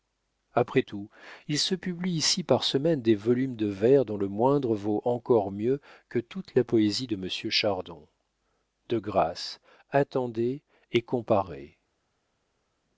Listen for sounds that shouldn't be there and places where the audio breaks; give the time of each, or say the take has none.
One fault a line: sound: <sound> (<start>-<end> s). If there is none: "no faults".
no faults